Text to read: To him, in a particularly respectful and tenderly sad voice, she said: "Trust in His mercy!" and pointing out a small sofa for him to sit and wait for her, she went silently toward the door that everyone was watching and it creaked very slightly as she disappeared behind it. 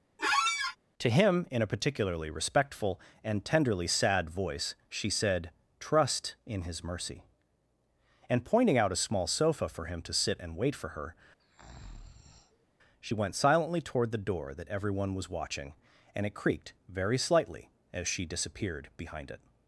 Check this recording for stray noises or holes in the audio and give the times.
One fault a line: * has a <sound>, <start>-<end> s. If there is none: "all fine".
* has a squeak, 0.2-0.8 s
* has a breath, 11.4-12.7 s